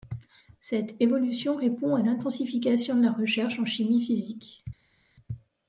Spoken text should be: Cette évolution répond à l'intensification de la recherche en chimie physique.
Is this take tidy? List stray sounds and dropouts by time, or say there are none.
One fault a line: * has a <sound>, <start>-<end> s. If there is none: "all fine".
all fine